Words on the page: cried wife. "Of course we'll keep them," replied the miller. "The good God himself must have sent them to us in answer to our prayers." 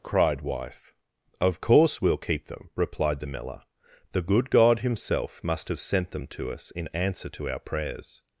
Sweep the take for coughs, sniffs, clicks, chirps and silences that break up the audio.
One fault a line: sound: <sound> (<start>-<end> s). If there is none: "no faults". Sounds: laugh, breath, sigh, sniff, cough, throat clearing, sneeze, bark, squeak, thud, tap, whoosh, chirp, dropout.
no faults